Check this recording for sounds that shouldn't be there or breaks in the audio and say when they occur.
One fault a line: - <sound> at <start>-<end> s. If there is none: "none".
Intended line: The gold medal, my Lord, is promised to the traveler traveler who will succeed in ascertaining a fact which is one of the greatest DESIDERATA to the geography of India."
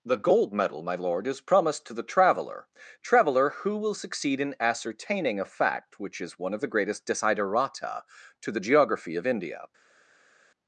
none